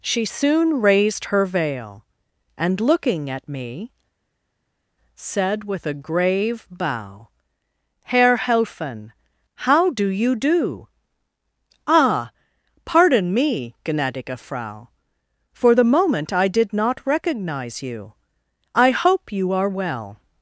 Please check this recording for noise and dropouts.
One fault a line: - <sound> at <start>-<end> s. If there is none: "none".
none